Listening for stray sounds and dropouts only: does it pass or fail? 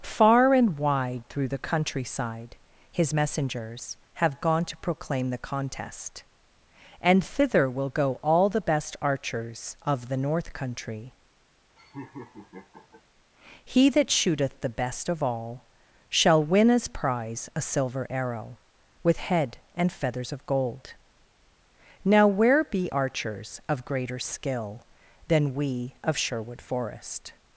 fail